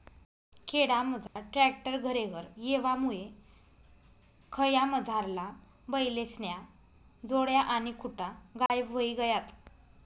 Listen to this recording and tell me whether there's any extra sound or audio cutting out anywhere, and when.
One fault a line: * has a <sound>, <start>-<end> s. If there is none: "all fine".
* has a dropout, 1.3-1.4 s
* has a dropout, 8.7-8.7 s